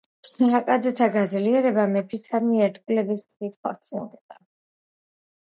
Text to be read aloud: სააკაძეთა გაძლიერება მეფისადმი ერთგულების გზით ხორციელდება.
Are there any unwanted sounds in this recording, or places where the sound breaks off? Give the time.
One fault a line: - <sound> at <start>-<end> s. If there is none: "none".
none